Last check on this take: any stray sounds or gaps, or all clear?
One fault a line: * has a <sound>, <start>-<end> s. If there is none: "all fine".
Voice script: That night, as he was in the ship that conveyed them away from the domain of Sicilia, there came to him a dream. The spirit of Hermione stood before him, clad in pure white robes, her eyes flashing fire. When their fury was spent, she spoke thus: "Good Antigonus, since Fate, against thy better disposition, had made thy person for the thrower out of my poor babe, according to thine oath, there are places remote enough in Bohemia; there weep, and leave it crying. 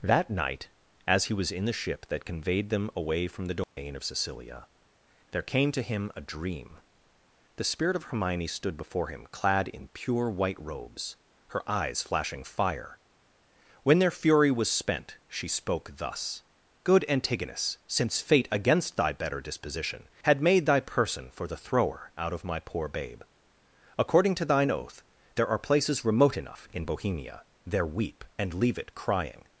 * has a dropout, 3.6-3.8 s